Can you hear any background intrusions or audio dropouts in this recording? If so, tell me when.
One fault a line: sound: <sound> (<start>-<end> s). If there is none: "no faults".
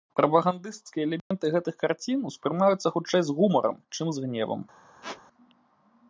sound: dropout (1.2-1.3 s)
sound: squeak (5.0-5.2 s)